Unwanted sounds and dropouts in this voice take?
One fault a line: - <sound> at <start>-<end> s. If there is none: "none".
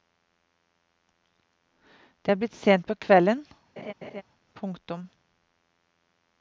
- laugh at 3.8-4.2 s